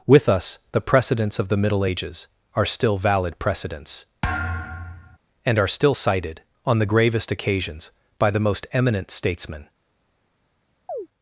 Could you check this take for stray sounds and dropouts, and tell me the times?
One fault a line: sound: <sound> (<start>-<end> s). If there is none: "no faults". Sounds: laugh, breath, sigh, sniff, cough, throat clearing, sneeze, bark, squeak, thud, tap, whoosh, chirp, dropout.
sound: thud (4.2-5.2 s)
sound: chirp (10.9-11.1 s)